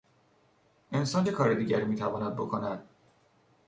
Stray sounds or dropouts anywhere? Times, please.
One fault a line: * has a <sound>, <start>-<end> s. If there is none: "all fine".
all fine